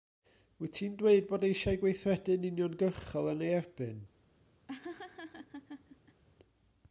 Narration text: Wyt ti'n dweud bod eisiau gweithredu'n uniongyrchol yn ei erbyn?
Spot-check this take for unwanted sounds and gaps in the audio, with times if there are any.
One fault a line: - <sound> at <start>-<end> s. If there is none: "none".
- laugh at 4.7-6.2 s